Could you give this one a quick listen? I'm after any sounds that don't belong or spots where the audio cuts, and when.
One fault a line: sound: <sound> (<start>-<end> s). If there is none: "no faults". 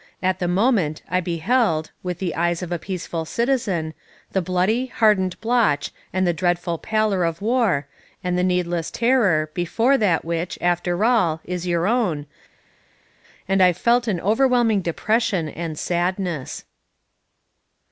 no faults